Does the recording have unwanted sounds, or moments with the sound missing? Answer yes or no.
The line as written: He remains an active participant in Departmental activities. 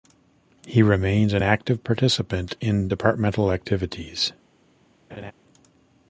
yes